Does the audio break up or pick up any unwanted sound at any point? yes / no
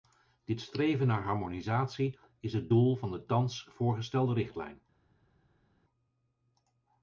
no